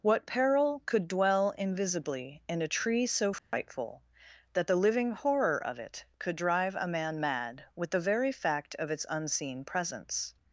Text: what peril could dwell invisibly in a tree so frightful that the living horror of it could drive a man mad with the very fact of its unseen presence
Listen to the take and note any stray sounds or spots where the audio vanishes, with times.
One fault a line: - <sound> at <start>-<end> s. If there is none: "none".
- dropout at 3.4-3.5 s